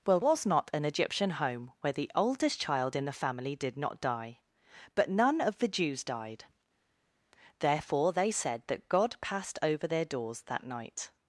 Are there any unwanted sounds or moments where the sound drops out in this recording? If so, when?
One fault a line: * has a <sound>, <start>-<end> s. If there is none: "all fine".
all fine